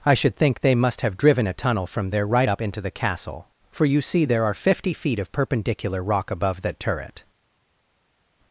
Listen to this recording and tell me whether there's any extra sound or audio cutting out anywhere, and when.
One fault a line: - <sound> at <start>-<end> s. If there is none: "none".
none